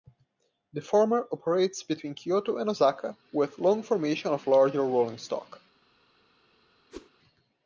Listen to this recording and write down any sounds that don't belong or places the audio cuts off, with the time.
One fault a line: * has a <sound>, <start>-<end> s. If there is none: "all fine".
* has a whoosh, 6.9-7.1 s